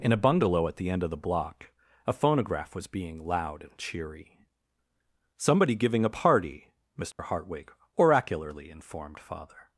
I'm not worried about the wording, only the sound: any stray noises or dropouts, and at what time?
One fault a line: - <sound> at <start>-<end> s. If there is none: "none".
- dropout at 7.1-7.2 s